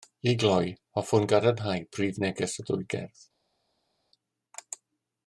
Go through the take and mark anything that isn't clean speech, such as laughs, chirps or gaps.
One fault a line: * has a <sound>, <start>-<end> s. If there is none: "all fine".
all fine